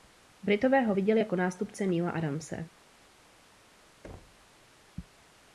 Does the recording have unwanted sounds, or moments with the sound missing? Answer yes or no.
yes